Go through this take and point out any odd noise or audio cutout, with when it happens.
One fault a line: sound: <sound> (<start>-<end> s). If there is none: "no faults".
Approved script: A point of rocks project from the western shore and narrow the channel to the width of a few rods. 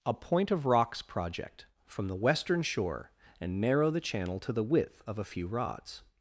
no faults